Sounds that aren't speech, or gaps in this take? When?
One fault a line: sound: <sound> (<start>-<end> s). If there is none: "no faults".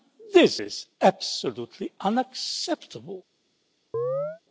sound: chirp (3.9-4.4 s)